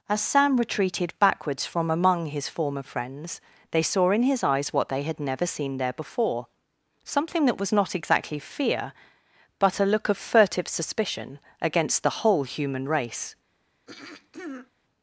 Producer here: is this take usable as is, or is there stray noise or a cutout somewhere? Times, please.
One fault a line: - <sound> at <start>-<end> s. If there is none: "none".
- throat clearing at 13.9-14.7 s